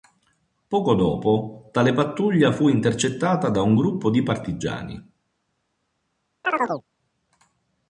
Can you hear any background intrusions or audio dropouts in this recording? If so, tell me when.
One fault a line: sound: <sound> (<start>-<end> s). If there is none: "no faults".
sound: chirp (6.4-6.8 s)